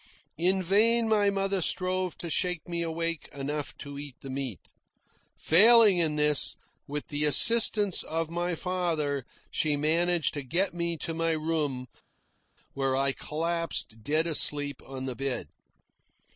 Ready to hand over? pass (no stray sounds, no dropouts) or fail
pass